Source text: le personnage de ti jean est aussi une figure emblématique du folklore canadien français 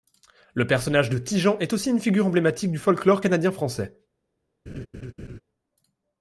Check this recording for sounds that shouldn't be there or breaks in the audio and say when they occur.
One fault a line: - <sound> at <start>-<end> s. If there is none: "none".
- laugh at 4.7-5.4 s